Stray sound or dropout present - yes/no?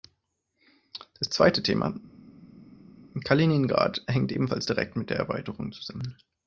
no